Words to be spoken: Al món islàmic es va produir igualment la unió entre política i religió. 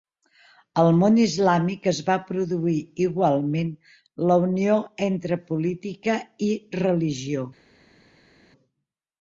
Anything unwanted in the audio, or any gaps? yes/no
no